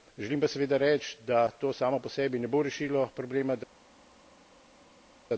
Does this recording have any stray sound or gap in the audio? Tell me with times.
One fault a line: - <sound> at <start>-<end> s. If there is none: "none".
none